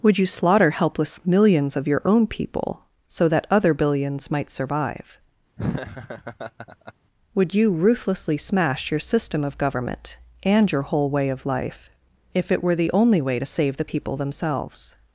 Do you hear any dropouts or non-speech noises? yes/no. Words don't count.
yes